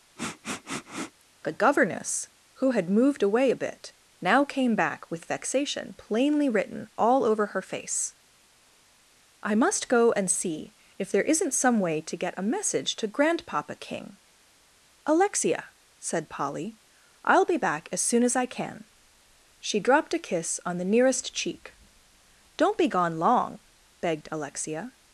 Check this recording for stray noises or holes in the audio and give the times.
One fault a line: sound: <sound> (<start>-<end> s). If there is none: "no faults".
sound: sniff (0.2-1.2 s)